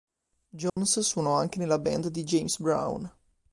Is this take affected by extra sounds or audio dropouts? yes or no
yes